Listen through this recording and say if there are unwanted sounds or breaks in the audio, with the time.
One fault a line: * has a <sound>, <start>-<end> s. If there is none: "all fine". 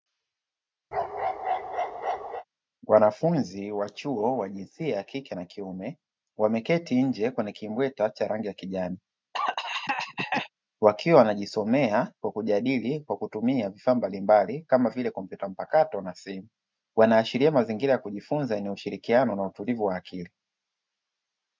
* has a bark, 0.9-2.4 s
* has a cough, 9.3-10.5 s